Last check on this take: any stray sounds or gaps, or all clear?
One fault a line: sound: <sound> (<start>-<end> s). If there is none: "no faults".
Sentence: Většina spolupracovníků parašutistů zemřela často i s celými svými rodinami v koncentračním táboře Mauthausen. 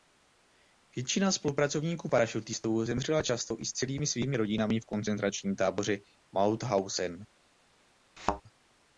sound: thud (8.2-8.4 s)